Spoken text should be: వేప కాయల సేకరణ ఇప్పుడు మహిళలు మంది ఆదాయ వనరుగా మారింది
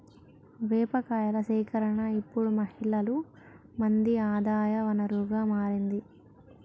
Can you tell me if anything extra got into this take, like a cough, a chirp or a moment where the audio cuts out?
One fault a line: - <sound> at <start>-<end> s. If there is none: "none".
none